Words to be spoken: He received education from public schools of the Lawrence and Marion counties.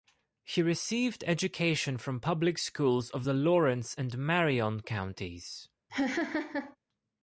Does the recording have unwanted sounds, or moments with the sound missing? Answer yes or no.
yes